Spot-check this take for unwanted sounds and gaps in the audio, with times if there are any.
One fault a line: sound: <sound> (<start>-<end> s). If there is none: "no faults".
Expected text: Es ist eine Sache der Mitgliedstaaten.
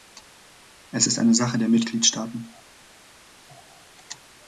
no faults